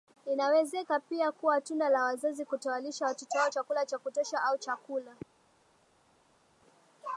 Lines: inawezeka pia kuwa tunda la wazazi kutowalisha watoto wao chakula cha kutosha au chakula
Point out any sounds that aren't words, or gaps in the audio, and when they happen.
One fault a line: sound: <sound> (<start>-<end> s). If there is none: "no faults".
no faults